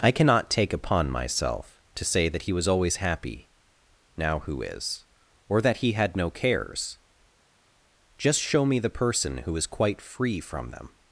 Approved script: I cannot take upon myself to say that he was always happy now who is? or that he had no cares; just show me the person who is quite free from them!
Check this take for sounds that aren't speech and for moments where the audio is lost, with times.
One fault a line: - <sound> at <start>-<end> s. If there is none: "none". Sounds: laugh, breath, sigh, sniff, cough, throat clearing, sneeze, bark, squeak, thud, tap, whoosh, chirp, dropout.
none